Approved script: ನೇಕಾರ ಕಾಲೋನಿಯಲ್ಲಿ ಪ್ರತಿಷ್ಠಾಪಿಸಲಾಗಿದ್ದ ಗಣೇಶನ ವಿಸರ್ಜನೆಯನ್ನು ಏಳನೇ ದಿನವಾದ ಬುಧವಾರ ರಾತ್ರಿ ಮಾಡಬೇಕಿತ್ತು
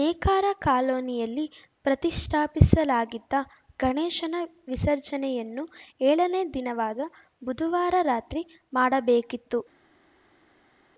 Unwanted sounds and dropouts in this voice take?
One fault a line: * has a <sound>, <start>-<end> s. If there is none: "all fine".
all fine